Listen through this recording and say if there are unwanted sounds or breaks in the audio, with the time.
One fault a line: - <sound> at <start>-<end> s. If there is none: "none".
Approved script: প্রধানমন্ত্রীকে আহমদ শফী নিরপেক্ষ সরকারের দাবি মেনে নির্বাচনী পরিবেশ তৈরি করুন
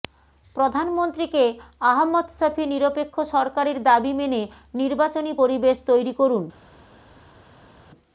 none